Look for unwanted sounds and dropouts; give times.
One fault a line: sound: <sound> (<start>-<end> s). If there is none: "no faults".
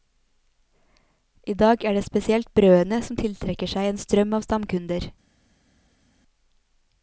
no faults